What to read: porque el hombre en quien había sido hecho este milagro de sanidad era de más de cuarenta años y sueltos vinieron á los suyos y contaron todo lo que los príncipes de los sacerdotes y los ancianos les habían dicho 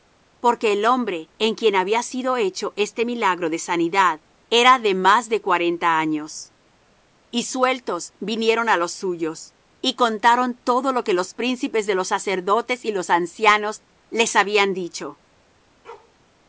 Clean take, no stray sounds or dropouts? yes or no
no